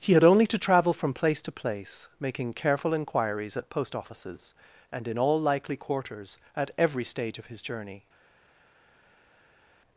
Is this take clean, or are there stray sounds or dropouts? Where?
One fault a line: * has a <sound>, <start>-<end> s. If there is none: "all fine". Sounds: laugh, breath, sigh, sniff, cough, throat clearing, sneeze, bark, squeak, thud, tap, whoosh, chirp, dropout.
all fine